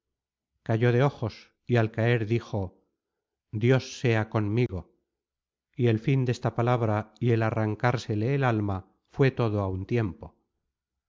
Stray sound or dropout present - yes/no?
yes